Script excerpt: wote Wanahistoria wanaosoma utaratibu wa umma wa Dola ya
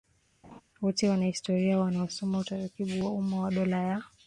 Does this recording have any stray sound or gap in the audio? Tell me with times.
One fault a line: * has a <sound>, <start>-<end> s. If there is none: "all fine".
* has a laugh, 0.4-0.6 s